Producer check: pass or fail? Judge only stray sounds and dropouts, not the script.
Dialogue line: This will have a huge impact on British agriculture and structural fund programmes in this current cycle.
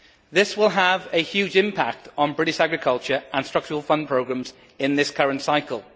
pass